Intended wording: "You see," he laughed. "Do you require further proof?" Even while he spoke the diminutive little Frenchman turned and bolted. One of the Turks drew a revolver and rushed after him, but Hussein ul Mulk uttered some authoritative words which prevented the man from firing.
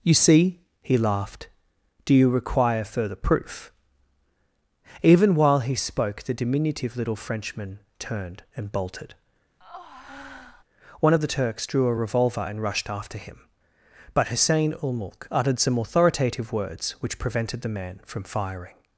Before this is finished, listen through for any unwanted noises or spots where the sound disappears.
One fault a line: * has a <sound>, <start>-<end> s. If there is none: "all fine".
* has a breath, 9.6-10.6 s